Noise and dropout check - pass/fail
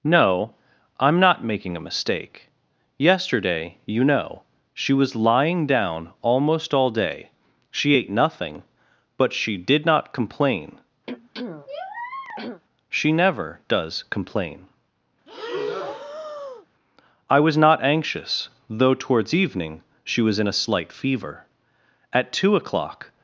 fail